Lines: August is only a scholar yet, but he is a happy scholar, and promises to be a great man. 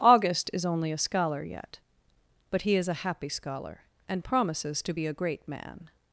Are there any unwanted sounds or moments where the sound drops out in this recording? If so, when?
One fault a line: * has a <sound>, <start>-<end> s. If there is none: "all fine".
all fine